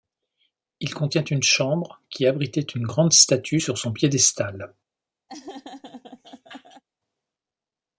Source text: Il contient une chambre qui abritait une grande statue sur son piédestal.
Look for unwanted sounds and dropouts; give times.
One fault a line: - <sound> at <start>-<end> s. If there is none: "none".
- laugh at 5.3-6.8 s